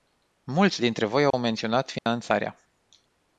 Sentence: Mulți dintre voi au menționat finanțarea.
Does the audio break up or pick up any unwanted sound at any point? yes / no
yes